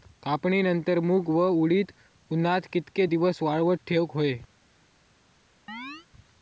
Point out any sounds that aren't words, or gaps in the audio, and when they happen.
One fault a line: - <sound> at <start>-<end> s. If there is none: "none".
- chirp at 5.7-6.1 s